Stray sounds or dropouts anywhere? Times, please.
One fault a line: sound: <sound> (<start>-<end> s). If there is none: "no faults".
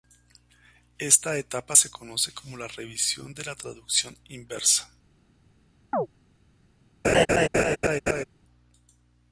sound: chirp (5.9-6.1 s)
sound: laugh (7.0-8.2 s)